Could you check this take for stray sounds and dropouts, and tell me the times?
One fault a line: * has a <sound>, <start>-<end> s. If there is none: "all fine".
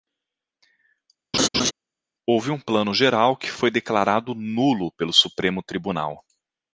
* has a laugh, 1.3-1.7 s